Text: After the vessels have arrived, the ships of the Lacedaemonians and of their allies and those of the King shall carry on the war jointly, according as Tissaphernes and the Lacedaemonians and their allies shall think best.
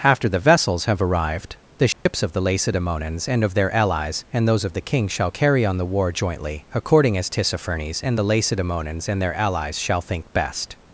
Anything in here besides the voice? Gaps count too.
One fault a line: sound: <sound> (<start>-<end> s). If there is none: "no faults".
sound: dropout (1.9-2.1 s)